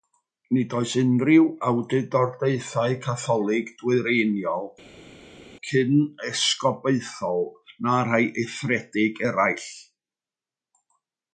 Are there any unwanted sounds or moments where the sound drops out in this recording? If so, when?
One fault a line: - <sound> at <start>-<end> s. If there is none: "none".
none